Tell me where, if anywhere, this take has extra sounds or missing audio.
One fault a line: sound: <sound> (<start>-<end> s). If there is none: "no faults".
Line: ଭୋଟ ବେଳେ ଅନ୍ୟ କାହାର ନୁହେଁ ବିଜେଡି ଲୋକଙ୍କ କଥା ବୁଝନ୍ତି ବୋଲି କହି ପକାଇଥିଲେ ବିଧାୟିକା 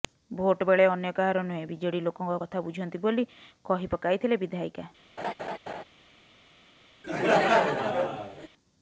sound: laugh (5.2-5.8 s)
sound: laugh (7.0-8.5 s)